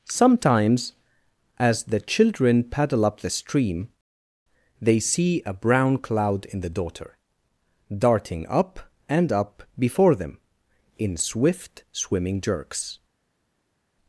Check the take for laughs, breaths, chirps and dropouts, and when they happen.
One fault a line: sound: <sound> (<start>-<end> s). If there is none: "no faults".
no faults